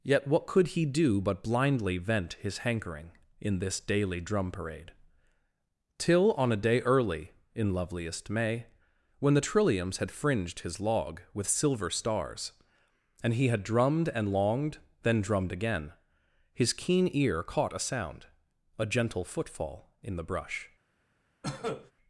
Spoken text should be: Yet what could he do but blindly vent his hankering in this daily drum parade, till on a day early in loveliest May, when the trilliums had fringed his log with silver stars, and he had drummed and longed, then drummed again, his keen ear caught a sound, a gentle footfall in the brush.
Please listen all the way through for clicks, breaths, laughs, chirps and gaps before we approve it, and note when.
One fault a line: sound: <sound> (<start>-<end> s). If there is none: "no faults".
sound: cough (21.4-21.9 s)